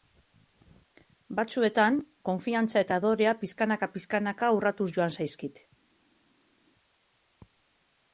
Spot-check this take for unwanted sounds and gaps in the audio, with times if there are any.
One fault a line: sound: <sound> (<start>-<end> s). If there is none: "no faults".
no faults